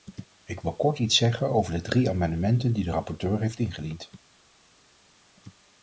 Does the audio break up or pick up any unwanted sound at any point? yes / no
no